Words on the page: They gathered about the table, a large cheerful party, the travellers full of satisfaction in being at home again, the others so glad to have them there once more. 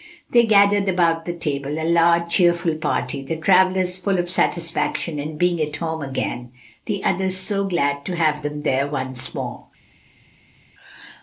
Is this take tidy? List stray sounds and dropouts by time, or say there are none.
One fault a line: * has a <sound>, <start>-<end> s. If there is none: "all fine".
all fine